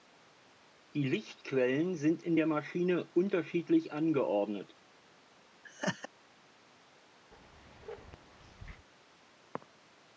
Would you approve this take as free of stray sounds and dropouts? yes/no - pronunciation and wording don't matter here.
no